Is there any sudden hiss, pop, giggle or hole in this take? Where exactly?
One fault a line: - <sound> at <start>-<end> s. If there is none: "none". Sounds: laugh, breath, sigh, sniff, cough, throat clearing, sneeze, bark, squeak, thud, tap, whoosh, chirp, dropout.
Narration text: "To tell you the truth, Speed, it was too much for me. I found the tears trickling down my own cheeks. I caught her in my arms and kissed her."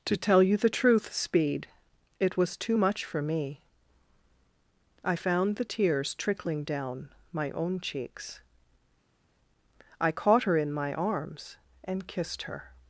none